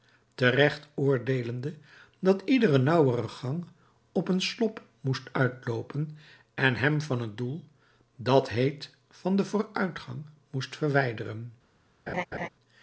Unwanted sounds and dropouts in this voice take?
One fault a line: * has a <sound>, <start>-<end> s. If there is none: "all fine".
* has a laugh, 12.1-12.5 s